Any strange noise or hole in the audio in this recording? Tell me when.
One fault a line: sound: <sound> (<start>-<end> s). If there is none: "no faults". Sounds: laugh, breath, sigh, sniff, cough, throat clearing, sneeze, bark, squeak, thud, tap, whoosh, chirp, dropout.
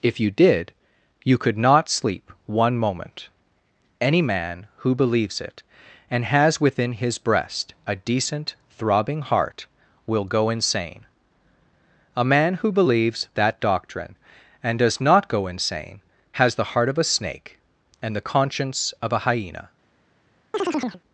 sound: chirp (20.5-21.0 s)